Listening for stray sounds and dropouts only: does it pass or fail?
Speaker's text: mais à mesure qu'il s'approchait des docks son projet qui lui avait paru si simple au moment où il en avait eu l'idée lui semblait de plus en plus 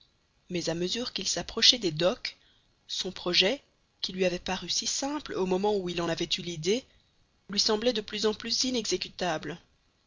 pass